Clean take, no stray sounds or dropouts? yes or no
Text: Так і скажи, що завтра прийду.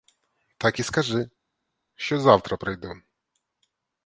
yes